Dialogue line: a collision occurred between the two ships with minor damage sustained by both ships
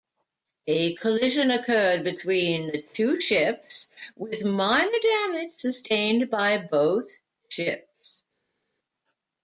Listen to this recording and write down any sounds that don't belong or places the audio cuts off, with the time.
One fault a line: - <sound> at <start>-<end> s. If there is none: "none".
none